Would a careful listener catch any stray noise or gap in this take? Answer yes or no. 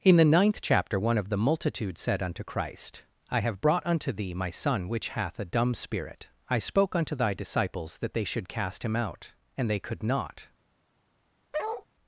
yes